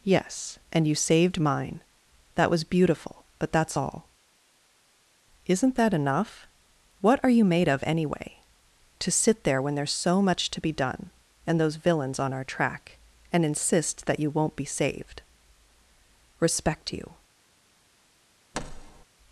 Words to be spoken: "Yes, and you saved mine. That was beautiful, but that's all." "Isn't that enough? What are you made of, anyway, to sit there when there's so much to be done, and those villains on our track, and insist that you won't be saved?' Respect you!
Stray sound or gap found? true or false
true